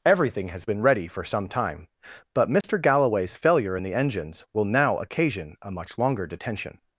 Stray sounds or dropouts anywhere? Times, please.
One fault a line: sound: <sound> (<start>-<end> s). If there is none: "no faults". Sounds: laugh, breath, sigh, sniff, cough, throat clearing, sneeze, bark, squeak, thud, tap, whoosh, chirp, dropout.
sound: dropout (2.6-2.6 s)